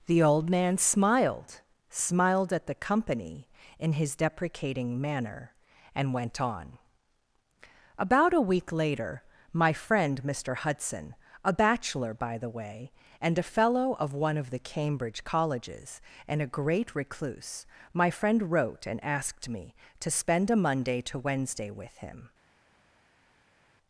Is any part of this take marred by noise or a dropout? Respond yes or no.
no